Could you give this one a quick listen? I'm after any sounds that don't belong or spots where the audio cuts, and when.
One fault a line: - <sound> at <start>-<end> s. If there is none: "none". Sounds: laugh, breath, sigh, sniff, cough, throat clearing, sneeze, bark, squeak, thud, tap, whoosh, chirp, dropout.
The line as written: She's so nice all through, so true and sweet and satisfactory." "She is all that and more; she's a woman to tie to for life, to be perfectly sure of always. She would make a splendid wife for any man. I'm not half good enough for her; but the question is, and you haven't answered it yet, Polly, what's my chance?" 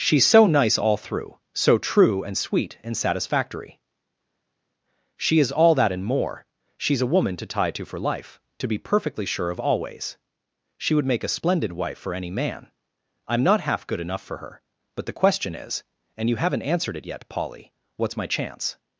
none